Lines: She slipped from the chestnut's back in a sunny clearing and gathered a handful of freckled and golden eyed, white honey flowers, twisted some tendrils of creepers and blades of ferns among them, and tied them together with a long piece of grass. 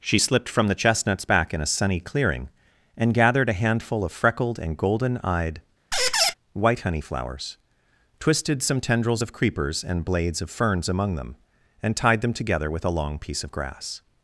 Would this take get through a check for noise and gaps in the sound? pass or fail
fail